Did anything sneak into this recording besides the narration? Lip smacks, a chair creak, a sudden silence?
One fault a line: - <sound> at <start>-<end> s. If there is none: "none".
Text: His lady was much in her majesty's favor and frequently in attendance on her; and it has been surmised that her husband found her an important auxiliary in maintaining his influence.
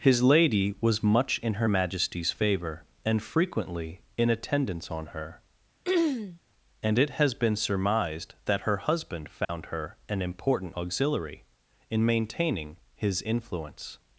- throat clearing at 5.8-6.4 s
- dropout at 9.4-9.5 s